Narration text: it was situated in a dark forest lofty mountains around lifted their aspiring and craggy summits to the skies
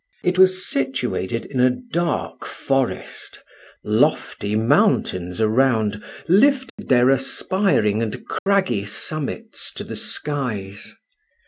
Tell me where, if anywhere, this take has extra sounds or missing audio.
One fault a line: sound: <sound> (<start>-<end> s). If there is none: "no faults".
sound: dropout (6.7-6.8 s)
sound: dropout (8.4-8.5 s)